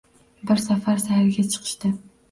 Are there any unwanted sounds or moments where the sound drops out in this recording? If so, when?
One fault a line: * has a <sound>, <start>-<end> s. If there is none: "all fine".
all fine